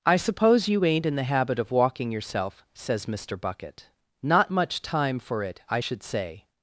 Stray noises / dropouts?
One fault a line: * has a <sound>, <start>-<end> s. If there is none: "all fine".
all fine